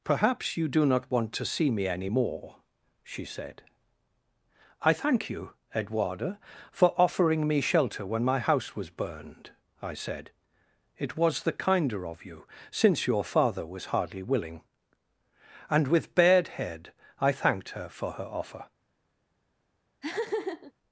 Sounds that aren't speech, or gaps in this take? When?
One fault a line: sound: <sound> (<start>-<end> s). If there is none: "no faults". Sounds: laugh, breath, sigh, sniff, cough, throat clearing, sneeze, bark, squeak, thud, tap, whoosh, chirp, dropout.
sound: laugh (20.0-20.7 s)